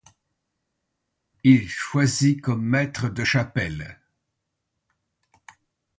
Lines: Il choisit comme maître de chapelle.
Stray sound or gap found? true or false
false